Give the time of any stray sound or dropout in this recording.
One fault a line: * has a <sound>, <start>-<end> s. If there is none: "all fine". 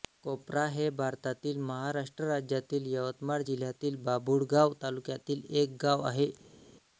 all fine